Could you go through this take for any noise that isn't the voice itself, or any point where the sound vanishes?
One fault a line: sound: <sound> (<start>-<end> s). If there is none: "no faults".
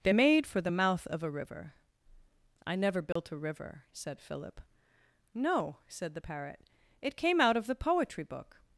sound: dropout (3.1-3.2 s)